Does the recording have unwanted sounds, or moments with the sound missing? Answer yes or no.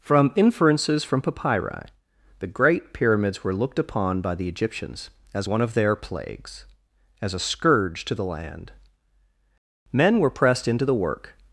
no